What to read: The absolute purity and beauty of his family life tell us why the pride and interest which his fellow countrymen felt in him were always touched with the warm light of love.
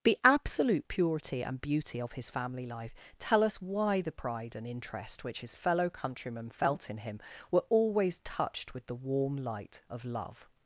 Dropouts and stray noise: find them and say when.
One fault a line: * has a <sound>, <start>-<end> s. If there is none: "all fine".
all fine